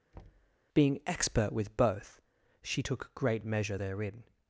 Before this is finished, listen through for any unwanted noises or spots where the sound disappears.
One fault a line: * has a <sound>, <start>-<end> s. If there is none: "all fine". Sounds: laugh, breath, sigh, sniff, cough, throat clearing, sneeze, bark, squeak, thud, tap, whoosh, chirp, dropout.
* has a thud, 0.1-0.6 s